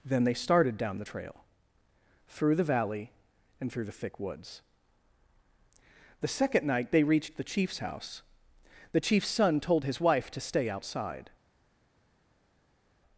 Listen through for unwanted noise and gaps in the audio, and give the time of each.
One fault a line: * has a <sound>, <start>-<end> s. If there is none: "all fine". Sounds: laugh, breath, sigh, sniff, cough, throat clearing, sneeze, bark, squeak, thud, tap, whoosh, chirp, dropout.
all fine